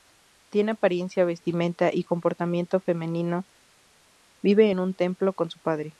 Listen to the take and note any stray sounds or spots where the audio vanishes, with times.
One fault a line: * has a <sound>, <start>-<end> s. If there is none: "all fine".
all fine